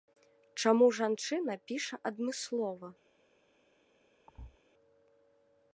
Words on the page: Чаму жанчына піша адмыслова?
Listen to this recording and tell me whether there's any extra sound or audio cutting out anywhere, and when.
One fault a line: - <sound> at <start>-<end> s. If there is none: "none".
- thud at 4.3-4.6 s